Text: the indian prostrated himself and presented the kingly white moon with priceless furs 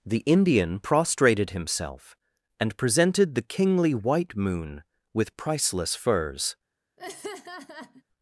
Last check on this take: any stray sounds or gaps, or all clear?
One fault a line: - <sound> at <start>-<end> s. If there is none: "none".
- laugh at 7.0-8.0 s